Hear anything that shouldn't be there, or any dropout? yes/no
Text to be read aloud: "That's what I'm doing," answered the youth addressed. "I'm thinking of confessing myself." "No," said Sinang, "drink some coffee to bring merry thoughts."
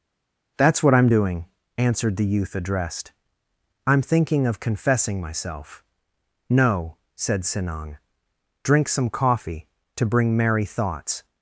no